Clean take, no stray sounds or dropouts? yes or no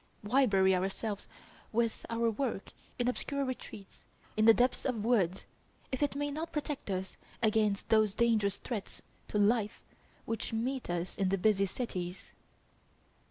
yes